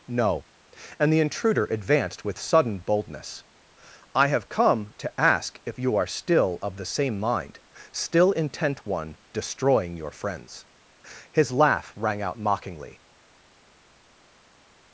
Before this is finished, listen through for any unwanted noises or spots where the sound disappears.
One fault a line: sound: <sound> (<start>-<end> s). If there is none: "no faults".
no faults